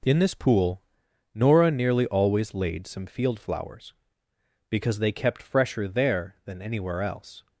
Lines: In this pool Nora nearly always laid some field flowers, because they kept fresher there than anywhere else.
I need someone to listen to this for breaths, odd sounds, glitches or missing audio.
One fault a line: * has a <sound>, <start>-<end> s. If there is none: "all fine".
all fine